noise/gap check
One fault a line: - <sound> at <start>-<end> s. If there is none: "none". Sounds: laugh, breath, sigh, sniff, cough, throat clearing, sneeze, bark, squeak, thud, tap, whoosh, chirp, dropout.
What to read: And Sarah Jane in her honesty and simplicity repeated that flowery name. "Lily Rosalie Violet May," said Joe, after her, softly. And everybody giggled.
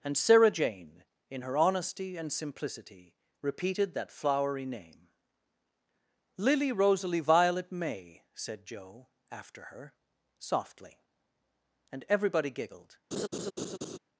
- laugh at 13.1-14.0 s